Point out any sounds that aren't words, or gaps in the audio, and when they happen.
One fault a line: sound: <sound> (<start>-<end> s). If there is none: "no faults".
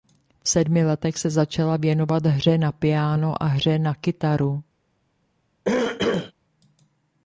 sound: throat clearing (5.6-6.3 s)